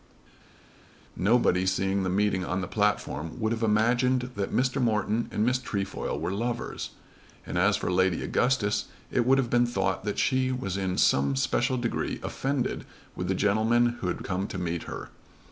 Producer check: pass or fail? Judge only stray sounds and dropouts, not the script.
pass